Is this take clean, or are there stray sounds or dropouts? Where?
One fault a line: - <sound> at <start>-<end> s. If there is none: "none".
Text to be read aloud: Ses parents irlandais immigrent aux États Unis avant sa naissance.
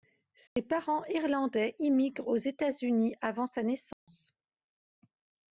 - dropout at 0.5-0.6 s
- dropout at 3.9-4.1 s